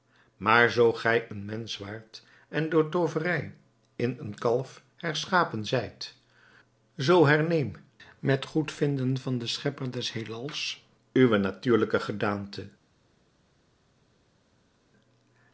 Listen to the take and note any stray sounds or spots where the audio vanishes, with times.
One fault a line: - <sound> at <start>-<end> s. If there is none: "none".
none